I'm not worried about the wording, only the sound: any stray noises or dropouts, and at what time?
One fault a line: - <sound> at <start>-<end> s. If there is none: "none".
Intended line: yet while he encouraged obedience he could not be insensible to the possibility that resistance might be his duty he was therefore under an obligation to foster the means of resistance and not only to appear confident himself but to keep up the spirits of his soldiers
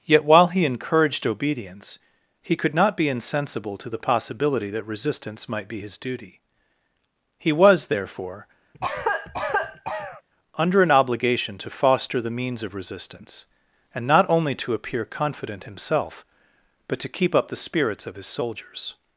- cough at 8.7-10.2 s